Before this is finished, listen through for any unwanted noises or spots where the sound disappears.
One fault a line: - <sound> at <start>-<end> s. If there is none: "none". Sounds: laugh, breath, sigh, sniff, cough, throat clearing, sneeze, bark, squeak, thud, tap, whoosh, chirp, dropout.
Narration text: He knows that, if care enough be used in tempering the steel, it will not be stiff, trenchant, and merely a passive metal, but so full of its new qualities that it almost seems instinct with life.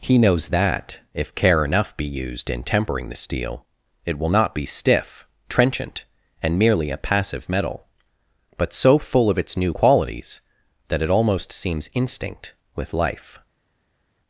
none